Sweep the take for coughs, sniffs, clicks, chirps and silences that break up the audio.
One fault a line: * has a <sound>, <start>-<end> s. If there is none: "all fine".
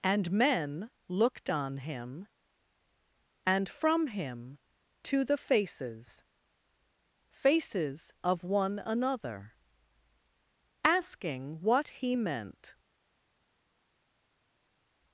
all fine